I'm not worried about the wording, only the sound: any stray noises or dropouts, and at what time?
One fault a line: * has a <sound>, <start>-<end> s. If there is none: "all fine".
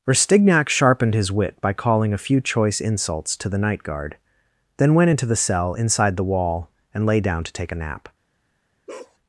* has a bark, 8.9-9.2 s